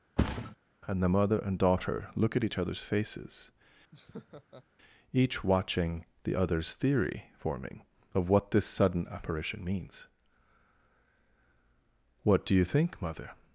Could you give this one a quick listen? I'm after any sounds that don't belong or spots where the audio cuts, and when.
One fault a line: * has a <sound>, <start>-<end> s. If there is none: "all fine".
* has a thud, 0.2-0.6 s
* has a laugh, 3.9-4.6 s